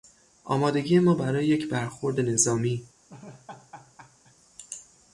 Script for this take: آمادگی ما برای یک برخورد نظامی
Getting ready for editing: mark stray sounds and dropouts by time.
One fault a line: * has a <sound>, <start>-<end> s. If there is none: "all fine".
* has a laugh, 3.1-4.4 s